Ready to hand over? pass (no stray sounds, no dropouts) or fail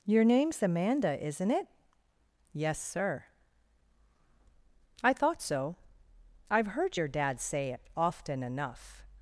pass